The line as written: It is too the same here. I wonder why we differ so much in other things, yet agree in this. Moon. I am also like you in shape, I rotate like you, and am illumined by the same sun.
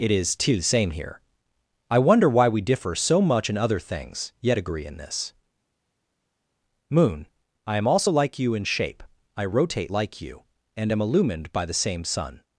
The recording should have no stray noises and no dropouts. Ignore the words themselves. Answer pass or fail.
pass